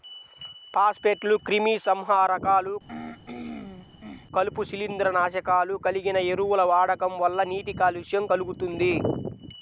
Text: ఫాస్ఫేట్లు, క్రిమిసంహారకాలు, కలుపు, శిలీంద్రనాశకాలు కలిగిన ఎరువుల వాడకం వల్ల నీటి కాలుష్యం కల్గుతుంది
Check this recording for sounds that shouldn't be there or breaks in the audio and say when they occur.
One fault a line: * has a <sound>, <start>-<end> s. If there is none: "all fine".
* has a throat clearing, 2.9-4.3 s